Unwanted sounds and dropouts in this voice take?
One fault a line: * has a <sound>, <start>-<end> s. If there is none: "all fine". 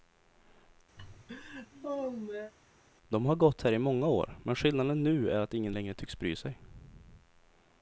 * has a laugh, 1.0-2.5 s